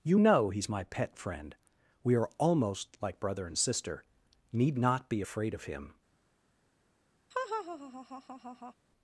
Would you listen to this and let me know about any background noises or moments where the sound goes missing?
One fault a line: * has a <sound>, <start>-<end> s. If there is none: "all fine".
* has a laugh, 7.3-8.7 s